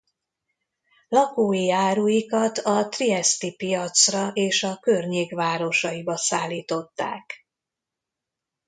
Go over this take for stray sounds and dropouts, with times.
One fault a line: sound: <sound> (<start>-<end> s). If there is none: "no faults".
no faults